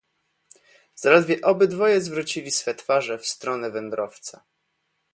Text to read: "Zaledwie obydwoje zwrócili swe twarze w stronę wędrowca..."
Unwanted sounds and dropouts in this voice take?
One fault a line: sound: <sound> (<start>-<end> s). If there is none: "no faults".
no faults